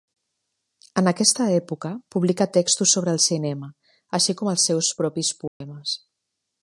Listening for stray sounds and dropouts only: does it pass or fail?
fail